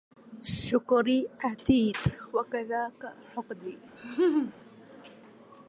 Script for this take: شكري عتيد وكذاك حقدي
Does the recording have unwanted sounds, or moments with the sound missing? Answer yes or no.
yes